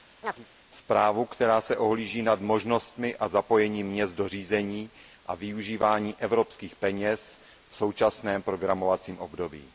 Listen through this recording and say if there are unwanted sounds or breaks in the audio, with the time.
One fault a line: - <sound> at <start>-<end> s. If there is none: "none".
- chirp at 0.2-0.5 s